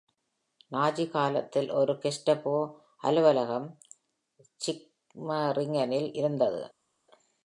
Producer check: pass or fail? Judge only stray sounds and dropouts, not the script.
pass